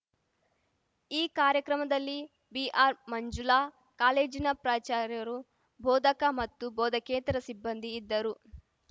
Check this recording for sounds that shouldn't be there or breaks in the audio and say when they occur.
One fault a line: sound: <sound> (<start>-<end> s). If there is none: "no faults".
no faults